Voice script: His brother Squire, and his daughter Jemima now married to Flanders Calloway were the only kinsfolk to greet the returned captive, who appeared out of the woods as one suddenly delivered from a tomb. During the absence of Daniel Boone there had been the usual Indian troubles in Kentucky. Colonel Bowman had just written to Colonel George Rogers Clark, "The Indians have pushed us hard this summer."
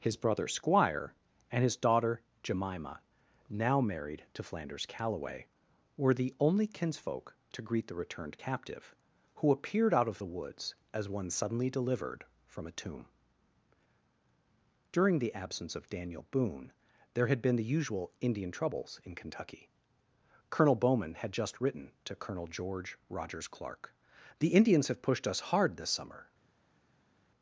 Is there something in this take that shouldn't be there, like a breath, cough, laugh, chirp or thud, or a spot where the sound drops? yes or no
no